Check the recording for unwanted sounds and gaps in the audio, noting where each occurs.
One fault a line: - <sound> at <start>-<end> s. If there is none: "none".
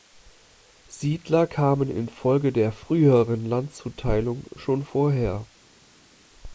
none